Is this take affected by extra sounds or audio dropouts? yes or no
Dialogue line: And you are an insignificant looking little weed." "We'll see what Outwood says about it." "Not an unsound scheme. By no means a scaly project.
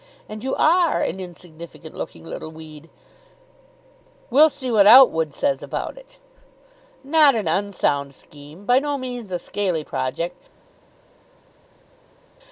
no